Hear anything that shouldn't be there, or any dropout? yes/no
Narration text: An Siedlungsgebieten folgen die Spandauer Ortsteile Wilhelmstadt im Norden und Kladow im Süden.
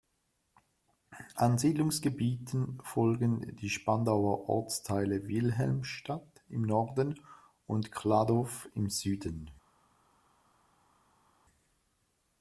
no